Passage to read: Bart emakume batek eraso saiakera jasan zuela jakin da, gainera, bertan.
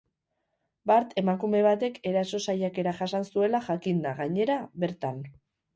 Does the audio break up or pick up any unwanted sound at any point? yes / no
no